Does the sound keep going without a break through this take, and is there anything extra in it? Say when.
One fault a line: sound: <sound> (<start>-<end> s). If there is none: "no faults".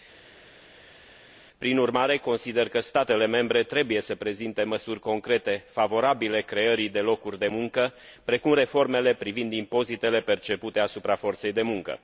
no faults